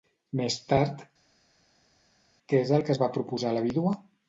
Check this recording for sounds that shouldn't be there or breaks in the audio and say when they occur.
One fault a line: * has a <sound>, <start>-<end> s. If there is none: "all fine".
all fine